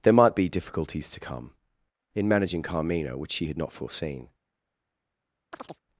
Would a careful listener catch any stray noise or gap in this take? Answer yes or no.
yes